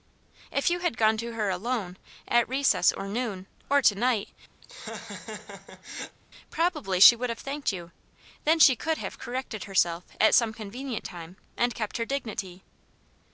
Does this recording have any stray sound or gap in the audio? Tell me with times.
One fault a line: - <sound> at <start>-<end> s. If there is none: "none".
- laugh at 4.6-6.2 s